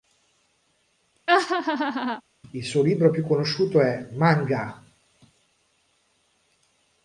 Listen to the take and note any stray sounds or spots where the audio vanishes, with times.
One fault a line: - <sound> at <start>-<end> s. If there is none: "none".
- laugh at 1.3-2.2 s